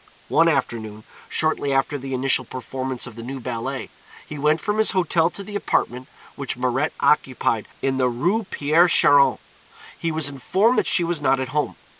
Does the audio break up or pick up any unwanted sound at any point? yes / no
no